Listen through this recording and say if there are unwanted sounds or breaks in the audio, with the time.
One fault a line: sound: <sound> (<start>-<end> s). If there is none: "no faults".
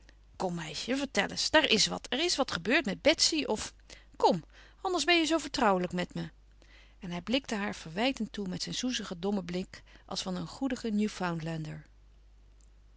no faults